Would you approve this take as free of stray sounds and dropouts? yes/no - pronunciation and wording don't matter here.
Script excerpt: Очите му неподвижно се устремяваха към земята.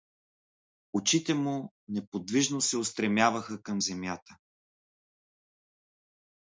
yes